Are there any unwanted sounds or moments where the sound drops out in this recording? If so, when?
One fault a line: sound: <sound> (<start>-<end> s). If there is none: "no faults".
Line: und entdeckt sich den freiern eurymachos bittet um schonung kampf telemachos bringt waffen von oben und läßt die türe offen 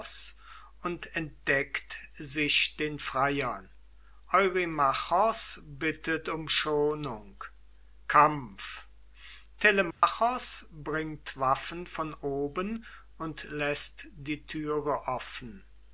sound: dropout (9.9-10.0 s)